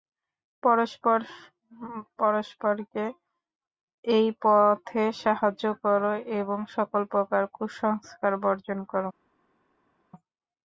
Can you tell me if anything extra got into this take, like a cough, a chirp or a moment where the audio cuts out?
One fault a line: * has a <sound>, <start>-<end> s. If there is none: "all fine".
all fine